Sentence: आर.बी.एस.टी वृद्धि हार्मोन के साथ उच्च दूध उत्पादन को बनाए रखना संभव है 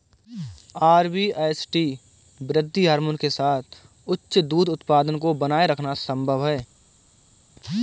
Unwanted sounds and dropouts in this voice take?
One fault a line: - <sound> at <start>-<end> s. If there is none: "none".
none